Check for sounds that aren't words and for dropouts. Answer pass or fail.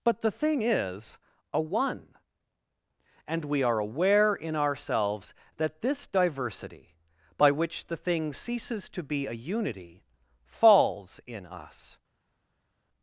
pass